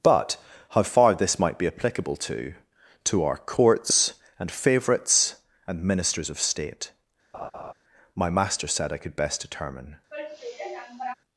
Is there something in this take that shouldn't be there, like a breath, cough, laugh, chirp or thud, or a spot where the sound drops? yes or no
yes